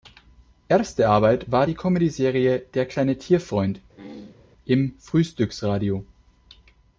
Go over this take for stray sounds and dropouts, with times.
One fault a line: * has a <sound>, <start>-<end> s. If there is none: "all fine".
* has a throat clearing, 3.9-4.5 s